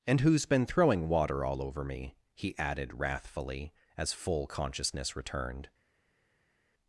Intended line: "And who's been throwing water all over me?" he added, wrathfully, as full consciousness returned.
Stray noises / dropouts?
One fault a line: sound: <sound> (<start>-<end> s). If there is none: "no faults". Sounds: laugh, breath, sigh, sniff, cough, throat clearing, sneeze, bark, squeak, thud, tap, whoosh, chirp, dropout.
no faults